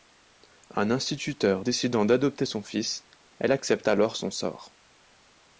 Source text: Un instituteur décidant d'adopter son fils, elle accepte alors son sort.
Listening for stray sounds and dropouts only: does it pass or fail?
pass